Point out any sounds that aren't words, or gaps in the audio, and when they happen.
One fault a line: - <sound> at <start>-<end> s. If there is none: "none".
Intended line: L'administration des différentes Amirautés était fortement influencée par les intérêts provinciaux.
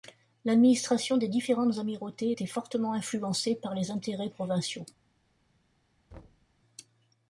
- thud at 6.1-6.5 s